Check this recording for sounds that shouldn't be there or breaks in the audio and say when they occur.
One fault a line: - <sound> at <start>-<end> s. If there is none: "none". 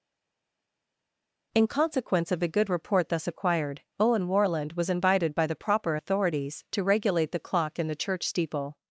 none